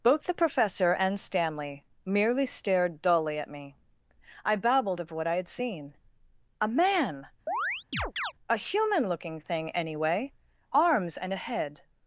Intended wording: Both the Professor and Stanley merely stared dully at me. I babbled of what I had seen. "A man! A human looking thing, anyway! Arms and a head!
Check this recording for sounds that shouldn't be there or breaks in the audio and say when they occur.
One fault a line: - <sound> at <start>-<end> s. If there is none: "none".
- chirp at 7.5-8.3 s